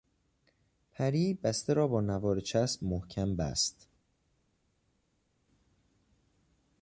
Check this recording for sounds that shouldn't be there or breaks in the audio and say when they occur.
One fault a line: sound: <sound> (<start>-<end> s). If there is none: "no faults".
no faults